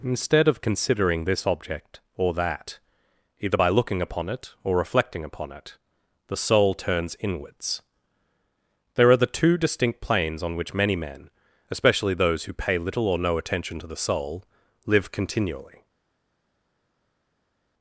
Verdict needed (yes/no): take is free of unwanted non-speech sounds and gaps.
yes